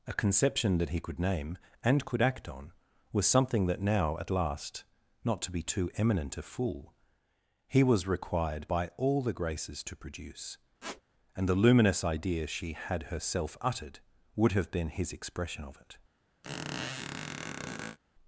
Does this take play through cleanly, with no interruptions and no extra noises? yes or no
no